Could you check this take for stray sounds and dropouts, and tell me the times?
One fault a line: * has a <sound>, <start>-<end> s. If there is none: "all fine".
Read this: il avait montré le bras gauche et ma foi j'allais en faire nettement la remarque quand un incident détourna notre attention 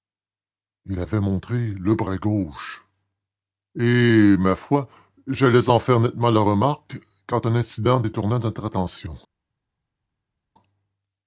all fine